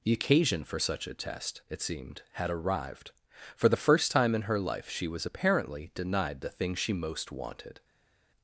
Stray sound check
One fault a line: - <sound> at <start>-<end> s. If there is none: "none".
none